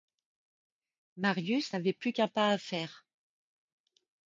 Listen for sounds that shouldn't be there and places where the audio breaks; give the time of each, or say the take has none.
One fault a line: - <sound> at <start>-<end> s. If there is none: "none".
none